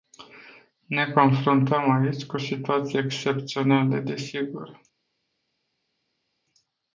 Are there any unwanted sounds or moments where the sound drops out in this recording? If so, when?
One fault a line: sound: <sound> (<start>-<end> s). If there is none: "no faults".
no faults